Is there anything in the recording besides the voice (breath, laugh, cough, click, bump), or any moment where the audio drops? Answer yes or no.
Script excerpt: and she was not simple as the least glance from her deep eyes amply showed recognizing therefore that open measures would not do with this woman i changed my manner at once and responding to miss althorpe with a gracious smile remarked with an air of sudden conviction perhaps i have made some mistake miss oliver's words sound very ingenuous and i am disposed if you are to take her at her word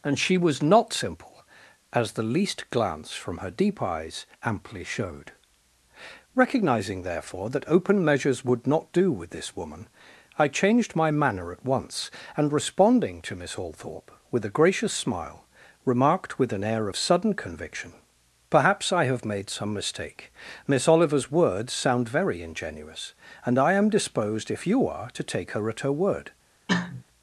yes